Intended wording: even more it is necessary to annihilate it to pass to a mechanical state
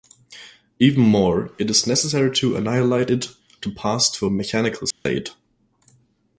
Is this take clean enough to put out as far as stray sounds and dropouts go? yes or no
no